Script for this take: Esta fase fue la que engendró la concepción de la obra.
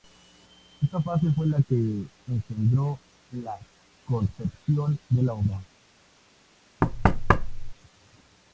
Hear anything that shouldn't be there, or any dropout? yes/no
yes